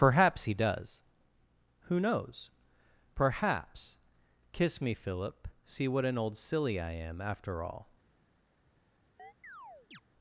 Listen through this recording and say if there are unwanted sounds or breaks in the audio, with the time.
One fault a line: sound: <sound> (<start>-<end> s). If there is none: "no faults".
sound: chirp (9.2-10.0 s)